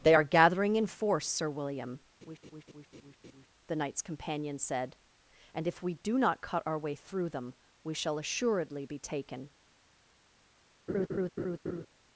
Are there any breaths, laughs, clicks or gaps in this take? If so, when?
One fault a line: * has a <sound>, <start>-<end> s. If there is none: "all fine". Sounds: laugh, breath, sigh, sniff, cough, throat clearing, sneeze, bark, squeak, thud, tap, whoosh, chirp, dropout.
* has a laugh, 2.2-3.5 s
* has a laugh, 10.9-11.9 s